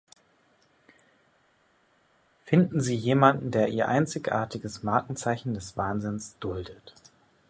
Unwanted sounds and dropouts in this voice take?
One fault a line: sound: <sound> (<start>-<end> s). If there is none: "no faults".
no faults